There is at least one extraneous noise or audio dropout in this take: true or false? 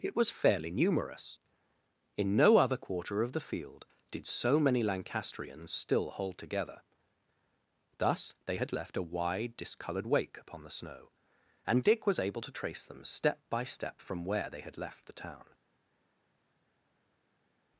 false